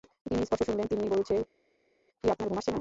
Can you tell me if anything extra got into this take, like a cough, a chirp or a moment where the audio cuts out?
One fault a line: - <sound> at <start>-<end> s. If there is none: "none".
none